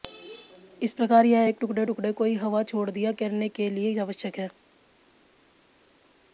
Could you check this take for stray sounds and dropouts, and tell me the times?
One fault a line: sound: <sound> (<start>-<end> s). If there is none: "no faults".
no faults